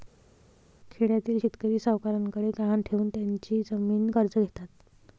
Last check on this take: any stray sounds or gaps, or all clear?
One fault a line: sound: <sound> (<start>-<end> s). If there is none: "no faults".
no faults